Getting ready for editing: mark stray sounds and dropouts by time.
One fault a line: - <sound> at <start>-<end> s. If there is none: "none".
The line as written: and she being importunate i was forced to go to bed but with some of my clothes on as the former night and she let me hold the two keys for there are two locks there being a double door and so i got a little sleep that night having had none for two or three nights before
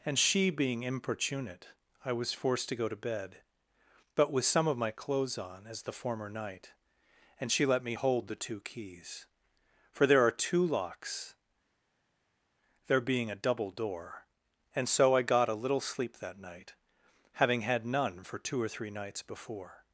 none